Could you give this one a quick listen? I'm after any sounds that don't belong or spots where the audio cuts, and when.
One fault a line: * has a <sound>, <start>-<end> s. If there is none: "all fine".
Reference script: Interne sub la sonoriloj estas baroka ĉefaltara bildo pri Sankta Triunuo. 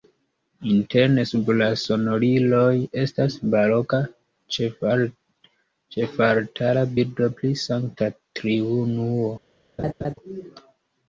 * has a laugh, 9.8-10.1 s